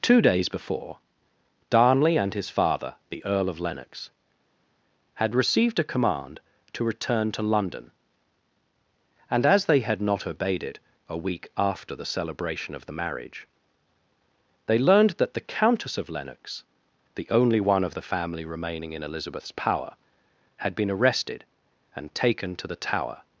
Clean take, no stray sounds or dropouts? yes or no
yes